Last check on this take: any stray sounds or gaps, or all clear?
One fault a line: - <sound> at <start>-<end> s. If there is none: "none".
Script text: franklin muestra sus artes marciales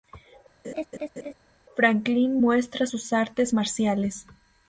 - laugh at 0.6-1.3 s